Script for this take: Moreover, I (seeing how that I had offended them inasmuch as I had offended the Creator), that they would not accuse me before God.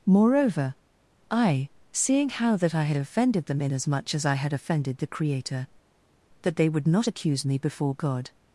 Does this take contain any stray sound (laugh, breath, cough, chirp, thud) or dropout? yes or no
no